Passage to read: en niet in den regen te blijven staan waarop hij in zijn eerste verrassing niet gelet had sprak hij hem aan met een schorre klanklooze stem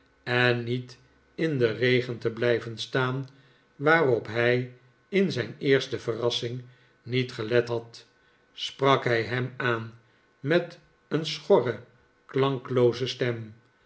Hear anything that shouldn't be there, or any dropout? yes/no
no